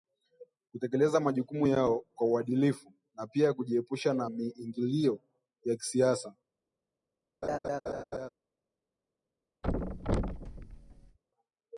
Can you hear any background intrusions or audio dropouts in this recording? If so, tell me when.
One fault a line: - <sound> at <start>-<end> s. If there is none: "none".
- laugh at 7.4-8.3 s
- thud at 9.6-11.2 s